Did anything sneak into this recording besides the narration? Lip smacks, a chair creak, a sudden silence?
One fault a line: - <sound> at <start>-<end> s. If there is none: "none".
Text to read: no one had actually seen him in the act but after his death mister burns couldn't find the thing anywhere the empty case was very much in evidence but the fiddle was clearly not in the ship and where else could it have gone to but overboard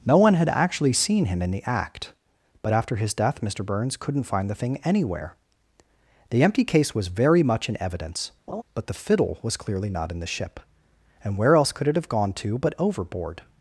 - laugh at 8.5-8.6 s